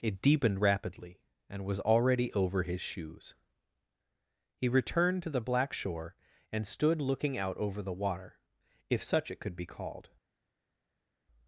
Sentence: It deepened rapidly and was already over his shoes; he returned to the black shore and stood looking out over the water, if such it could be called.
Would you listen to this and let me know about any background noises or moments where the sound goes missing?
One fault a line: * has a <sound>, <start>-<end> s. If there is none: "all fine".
all fine